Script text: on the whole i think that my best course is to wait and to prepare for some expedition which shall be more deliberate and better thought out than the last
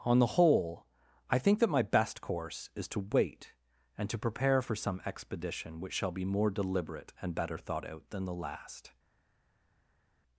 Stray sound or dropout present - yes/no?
no